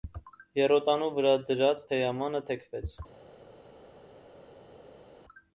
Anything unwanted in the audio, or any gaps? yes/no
no